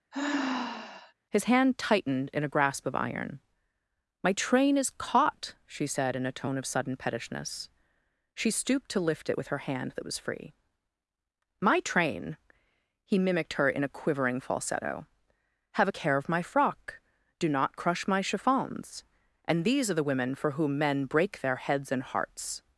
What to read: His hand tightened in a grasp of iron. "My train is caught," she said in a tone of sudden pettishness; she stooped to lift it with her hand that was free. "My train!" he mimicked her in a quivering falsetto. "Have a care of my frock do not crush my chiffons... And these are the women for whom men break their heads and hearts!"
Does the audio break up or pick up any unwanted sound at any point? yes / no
yes